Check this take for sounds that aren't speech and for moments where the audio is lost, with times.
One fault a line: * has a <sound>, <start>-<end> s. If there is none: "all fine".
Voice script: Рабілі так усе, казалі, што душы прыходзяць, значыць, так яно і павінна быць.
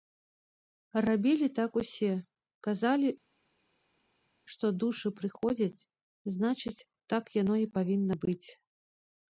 all fine